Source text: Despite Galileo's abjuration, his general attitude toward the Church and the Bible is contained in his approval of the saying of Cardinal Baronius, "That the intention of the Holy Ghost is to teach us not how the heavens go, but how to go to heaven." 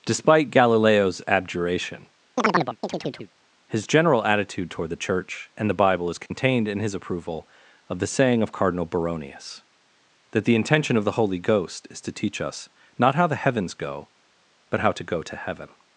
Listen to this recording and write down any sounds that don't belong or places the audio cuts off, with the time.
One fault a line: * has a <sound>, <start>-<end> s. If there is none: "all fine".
* has a chirp, 2.4-3.3 s
* has a dropout, 6.3-6.3 s